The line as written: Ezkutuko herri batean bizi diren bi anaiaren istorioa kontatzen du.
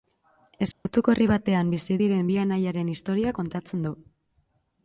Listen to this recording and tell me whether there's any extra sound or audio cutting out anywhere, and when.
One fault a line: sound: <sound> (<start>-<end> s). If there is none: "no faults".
sound: dropout (0.7-0.9 s)